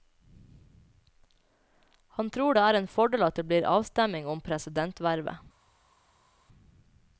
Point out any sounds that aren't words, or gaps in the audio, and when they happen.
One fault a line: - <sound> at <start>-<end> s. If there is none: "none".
none